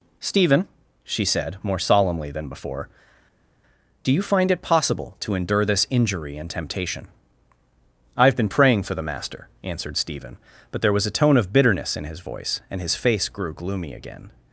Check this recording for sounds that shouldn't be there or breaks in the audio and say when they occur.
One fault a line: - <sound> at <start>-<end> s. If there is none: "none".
none